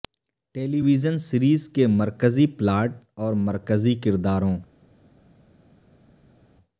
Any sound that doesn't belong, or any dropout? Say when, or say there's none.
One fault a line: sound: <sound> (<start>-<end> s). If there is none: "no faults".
no faults